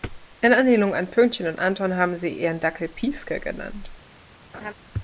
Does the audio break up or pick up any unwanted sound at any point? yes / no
yes